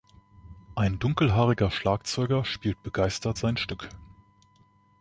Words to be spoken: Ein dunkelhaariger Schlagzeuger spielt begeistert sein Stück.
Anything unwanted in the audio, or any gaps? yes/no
no